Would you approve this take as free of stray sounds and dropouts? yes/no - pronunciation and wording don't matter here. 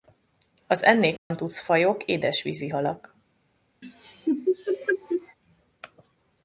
no